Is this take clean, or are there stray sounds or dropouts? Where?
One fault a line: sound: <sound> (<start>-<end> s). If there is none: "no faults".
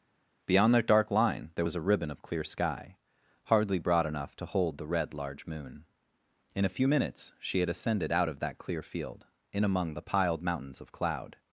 no faults